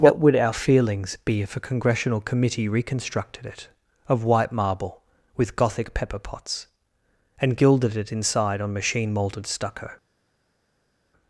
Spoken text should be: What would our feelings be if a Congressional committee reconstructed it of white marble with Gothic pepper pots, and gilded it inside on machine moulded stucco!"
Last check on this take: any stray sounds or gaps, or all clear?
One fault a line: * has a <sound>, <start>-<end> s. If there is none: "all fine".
all fine